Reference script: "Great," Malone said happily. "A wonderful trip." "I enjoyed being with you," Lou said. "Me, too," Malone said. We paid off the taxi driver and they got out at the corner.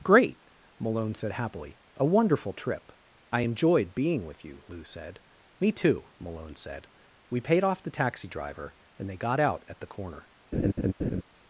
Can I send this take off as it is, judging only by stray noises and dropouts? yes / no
no